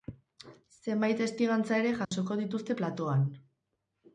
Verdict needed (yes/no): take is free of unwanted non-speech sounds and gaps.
no